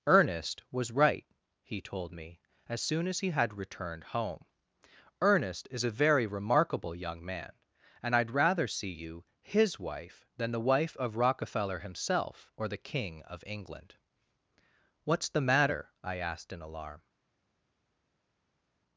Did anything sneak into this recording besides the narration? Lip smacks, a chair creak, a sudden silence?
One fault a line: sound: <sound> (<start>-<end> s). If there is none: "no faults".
no faults